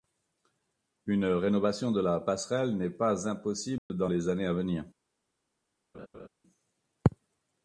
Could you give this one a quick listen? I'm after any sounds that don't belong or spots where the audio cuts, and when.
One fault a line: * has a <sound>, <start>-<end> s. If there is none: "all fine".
* has a dropout, 3.8-3.9 s
* has a laugh, 5.9-6.3 s